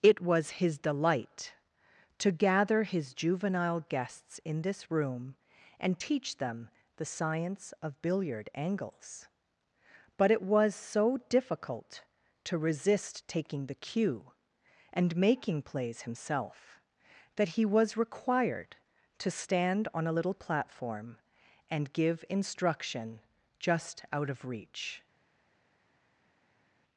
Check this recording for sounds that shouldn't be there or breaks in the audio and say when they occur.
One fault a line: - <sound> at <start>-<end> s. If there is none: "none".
none